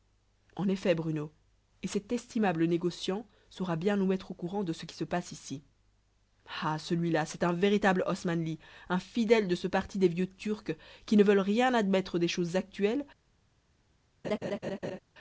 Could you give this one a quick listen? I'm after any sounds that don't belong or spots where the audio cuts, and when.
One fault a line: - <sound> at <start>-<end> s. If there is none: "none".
- laugh at 14.2-15.0 s